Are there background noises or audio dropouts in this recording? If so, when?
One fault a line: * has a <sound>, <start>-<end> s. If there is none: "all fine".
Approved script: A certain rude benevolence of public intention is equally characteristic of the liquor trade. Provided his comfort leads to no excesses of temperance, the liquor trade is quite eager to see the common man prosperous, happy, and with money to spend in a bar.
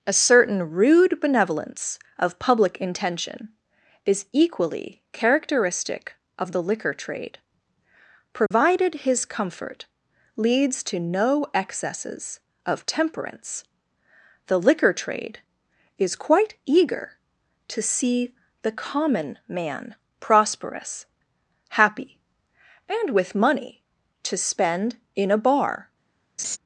* has a dropout, 8.5-8.5 s
* has a laugh, 26.4-26.6 s